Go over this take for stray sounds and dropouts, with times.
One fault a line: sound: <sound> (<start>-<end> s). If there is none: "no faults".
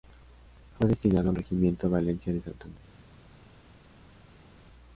no faults